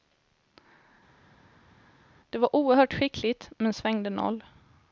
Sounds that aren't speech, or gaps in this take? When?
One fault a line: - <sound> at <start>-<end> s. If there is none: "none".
none